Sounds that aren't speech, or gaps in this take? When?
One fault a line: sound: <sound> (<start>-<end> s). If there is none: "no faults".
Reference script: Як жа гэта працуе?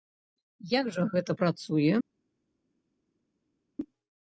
no faults